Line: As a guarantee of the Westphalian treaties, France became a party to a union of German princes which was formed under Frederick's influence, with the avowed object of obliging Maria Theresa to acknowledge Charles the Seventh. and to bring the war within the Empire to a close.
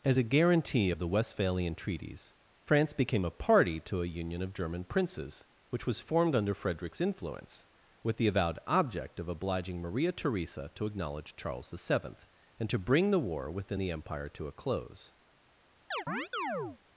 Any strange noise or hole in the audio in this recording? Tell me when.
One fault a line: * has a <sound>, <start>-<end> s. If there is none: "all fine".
* has a chirp, 15.9-16.8 s